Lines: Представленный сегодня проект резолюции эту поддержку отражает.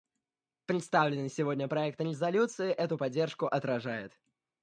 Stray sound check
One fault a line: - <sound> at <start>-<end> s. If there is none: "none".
none